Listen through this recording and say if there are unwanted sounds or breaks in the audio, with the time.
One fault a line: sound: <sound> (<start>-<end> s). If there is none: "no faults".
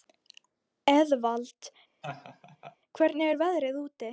sound: laugh (2.0-2.8 s)